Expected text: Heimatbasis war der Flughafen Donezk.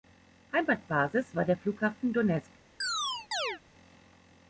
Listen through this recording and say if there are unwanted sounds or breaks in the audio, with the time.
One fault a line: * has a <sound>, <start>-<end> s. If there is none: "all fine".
* has a chirp, 2.8-3.6 s